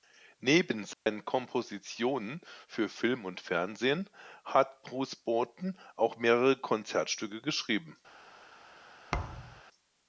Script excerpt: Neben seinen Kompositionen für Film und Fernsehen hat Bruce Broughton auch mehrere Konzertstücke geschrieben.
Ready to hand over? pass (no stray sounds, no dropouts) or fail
fail